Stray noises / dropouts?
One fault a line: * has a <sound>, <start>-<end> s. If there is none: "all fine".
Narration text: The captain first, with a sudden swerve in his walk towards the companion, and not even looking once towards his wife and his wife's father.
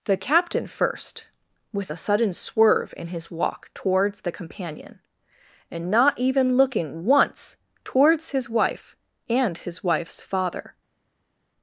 all fine